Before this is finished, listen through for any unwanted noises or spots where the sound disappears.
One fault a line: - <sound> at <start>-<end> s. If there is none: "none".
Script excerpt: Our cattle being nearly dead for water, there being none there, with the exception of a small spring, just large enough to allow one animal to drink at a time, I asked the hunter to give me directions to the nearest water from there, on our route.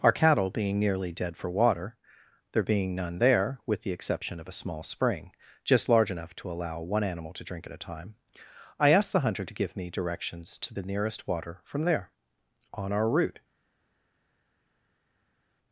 none